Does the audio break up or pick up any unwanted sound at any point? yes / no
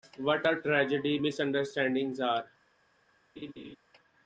yes